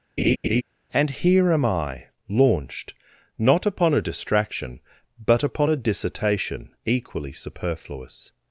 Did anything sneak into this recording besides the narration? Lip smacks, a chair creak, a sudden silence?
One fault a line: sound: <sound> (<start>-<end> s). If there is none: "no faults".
sound: laugh (0.2-0.6 s)